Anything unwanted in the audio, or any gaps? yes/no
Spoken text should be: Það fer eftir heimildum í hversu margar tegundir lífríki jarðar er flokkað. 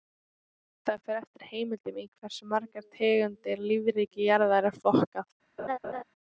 yes